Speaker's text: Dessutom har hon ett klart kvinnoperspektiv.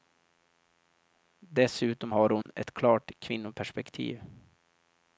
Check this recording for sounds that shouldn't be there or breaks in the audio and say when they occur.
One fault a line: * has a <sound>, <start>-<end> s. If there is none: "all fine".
* has a dropout, 2.4-2.5 s